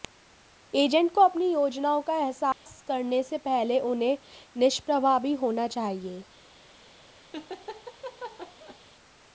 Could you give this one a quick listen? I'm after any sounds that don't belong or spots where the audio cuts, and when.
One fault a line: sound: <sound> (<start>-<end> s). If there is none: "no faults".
sound: dropout (2.5-2.7 s)
sound: laugh (7.3-8.8 s)